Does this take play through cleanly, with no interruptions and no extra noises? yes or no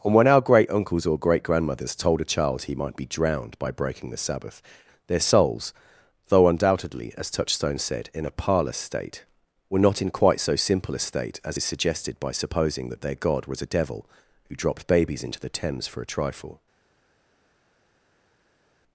yes